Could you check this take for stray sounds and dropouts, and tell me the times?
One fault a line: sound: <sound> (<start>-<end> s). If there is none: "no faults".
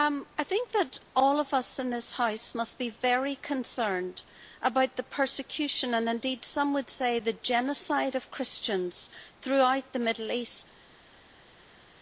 no faults